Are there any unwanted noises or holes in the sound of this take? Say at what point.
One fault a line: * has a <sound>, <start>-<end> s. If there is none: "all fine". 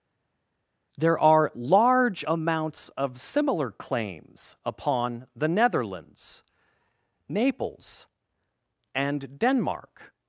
all fine